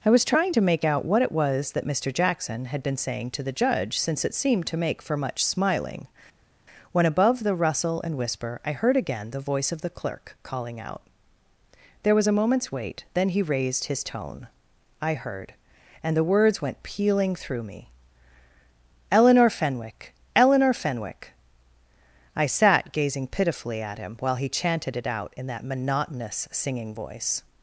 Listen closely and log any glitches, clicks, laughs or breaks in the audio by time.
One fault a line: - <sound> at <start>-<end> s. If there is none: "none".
none